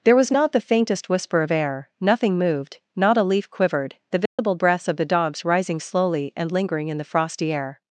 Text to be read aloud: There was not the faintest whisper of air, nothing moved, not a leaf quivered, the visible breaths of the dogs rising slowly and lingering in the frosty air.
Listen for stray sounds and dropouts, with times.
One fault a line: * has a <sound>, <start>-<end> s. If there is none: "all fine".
* has a dropout, 4.3-4.4 s